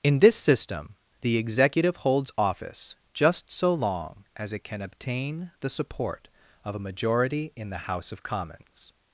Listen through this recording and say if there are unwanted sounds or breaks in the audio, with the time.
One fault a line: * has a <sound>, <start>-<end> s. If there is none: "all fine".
all fine